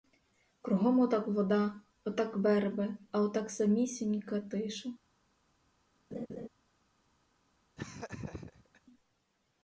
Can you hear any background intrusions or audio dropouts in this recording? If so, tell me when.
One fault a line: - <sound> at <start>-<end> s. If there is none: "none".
- laugh at 6.1-6.5 s
- laugh at 7.8-8.8 s